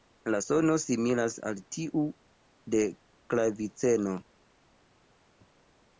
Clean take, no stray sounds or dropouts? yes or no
yes